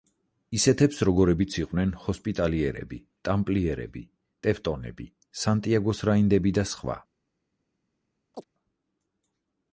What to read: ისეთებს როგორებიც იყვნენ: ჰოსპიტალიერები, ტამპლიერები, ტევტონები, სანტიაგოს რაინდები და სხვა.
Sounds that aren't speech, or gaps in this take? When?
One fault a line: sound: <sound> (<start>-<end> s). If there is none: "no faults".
sound: chirp (8.3-8.4 s)